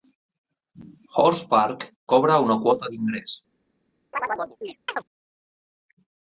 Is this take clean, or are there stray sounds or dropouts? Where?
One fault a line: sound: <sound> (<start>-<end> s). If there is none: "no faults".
sound: chirp (4.1-5.0 s)